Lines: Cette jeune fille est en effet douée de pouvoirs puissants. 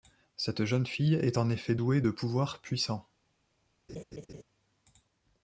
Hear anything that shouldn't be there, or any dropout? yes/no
yes